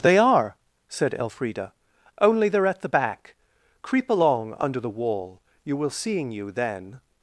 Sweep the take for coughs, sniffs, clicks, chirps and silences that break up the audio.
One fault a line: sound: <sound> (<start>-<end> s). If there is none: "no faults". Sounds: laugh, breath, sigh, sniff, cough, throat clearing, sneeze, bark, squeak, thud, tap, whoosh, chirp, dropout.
no faults